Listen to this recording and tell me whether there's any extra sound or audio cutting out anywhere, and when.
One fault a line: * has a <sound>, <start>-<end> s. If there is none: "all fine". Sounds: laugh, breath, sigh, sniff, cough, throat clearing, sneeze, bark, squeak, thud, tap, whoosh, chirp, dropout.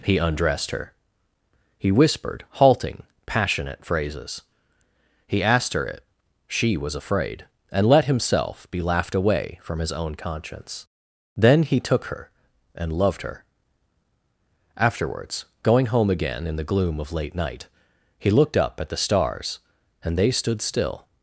all fine